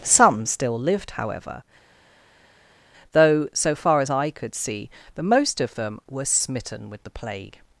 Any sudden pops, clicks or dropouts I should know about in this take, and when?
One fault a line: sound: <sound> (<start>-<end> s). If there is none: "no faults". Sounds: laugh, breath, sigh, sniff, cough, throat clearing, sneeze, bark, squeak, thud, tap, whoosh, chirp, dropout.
no faults